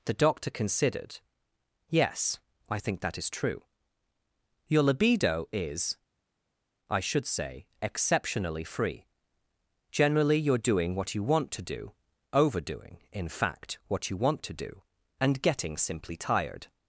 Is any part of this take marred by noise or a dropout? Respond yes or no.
no